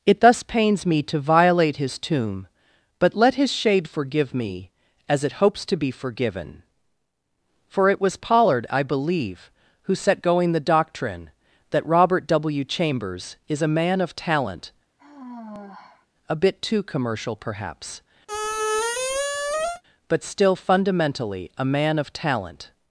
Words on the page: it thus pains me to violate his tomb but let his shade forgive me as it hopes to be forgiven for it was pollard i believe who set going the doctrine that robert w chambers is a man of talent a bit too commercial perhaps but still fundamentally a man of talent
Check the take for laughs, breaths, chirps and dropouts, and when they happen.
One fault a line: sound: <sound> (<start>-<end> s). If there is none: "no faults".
sound: sigh (15.0-16.1 s)
sound: squeak (18.3-19.8 s)